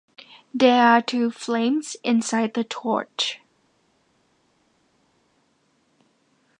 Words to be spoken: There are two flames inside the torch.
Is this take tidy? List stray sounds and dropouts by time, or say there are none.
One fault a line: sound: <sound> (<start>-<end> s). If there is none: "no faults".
no faults